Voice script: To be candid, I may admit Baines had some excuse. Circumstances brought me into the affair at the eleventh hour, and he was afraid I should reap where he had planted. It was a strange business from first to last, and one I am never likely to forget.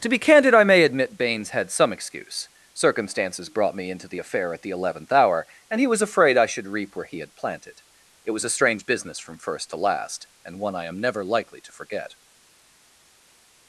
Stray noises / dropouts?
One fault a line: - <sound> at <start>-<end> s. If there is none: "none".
none